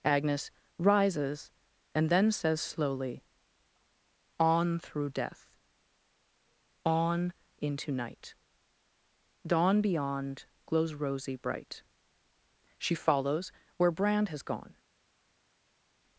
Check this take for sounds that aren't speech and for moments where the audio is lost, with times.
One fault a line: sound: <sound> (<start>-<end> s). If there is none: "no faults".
no faults